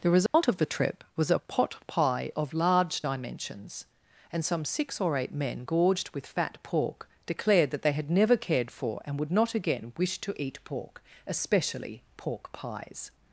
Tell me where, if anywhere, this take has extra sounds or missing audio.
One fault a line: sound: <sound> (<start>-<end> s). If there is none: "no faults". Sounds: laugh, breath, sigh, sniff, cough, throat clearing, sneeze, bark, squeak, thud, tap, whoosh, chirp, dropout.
sound: dropout (0.3-0.3 s)